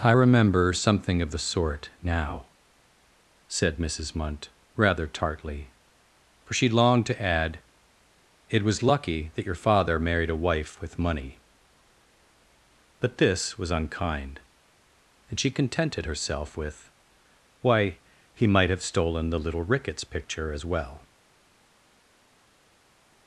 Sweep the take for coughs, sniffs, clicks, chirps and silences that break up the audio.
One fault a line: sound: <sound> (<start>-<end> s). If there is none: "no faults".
no faults